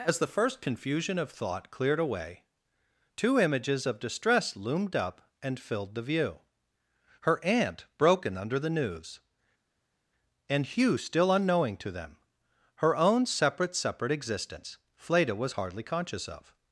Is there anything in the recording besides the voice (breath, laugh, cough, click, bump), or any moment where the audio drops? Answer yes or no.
no